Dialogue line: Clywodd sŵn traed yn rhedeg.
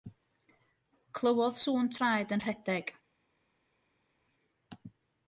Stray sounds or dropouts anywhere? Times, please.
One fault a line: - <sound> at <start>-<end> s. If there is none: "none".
none